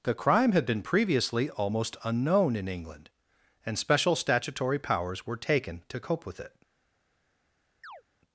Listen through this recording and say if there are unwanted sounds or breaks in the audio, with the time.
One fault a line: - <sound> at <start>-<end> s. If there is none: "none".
- chirp at 7.8-8.0 s